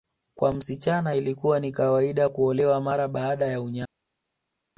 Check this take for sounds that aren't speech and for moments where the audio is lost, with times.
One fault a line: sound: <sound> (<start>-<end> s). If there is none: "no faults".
no faults